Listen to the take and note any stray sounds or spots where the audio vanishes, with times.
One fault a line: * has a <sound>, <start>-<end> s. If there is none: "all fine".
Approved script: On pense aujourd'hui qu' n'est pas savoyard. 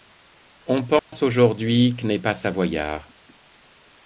* has a dropout, 1.0-1.1 s